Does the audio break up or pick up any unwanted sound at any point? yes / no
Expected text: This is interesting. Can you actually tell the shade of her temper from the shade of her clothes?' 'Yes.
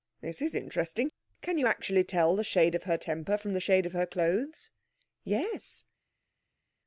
no